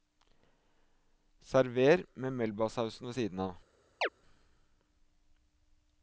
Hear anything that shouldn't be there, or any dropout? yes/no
yes